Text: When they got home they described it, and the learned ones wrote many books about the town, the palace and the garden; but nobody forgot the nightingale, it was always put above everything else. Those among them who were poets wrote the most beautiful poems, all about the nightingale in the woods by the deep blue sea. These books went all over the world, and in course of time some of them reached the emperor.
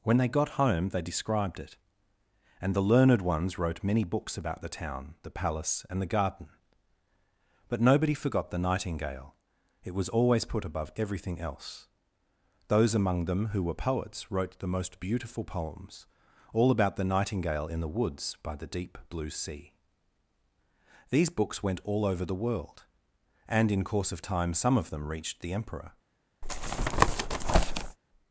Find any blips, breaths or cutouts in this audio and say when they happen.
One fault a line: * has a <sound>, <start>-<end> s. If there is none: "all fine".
* has a tap, 26.4-28.0 s